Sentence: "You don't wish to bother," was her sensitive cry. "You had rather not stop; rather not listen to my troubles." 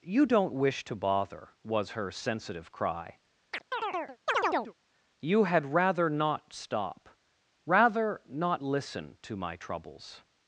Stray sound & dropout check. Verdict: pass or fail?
fail